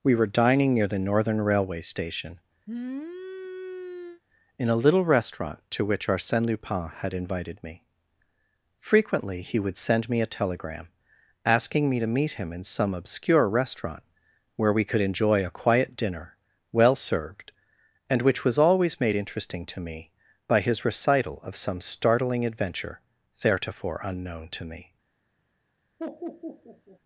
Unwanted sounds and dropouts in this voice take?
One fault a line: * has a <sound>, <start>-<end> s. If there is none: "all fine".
* has a sniff, 2.7-4.2 s
* has a laugh, 26.0-27.0 s